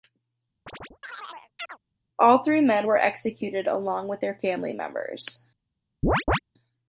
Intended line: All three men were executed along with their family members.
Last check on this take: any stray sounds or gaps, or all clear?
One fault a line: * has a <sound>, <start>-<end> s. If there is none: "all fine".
* has a chirp, 0.7-1.8 s
* has a chirp, 6.0-6.4 s